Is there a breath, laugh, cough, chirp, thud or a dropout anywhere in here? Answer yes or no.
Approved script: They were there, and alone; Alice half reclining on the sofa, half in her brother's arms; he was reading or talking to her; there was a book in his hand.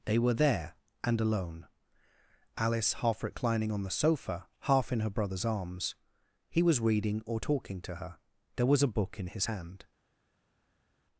no